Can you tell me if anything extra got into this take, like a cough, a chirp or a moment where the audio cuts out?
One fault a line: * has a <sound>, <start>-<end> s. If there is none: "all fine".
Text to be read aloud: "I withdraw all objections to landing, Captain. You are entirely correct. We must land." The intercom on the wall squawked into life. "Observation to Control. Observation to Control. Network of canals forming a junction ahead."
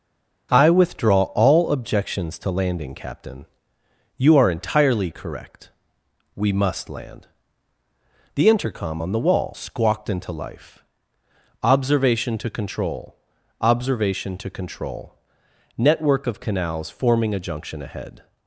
all fine